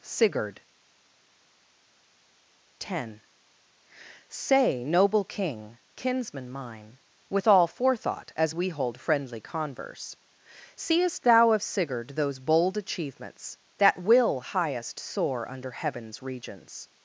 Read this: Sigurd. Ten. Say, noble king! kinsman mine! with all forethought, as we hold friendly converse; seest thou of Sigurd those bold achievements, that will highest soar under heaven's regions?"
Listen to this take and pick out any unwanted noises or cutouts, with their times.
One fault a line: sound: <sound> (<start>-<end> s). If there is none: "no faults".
no faults